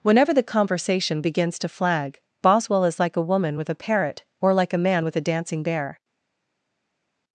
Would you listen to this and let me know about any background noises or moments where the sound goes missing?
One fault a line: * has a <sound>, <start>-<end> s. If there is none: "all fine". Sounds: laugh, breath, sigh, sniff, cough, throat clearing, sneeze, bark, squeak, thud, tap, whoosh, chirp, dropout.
all fine